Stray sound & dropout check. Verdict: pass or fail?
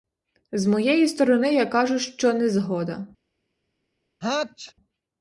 fail